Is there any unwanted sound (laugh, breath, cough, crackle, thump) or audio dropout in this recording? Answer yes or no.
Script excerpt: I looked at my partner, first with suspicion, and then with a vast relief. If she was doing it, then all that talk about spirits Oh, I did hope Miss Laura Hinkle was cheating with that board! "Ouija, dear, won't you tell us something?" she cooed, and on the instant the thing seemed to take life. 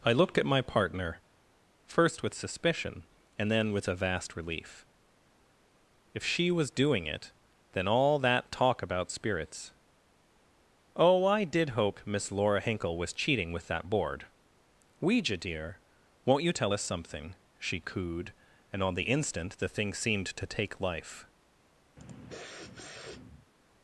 yes